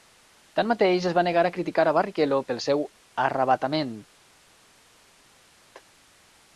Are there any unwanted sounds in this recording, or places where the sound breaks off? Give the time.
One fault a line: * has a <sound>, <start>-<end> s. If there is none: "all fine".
all fine